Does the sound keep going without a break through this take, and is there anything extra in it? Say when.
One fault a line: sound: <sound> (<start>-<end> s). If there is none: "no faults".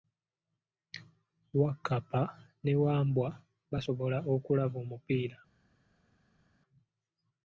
no faults